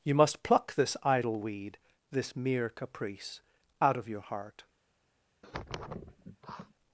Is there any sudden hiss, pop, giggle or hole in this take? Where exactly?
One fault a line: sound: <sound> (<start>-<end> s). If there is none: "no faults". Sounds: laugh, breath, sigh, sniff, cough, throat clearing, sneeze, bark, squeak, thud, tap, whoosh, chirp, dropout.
sound: sniff (5.4-6.7 s)